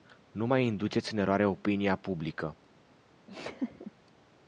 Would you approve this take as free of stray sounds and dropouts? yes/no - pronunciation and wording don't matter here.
no